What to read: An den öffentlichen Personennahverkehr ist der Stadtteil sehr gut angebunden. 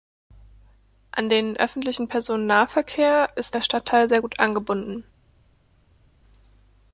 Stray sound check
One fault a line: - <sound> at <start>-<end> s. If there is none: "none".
none